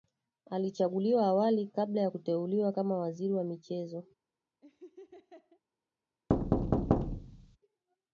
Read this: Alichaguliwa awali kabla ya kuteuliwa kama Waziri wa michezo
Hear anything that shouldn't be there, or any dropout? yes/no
yes